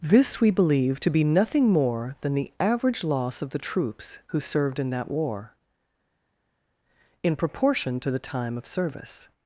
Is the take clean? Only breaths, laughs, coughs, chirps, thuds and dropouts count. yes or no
yes